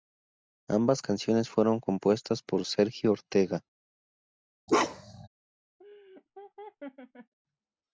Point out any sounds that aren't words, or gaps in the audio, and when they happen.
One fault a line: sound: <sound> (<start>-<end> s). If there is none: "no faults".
sound: bark (4.7-5.3 s)
sound: laugh (5.8-7.3 s)